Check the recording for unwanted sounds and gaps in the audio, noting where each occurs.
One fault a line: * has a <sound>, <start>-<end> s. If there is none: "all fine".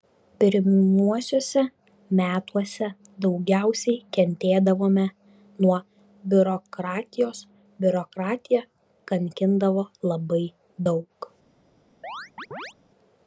* has a chirp, 12.0-12.7 s